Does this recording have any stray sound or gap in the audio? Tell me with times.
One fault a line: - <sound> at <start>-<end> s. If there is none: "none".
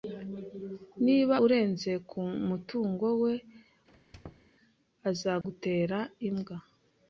- squeak at 3.9-4.5 s
- dropout at 5.4-5.4 s